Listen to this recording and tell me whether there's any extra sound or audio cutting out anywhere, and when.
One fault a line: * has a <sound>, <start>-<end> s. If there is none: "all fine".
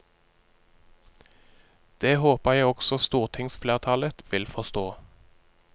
all fine